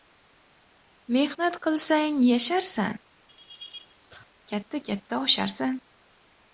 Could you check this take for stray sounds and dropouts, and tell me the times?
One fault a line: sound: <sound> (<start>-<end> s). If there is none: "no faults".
sound: laugh (3.3-4.3 s)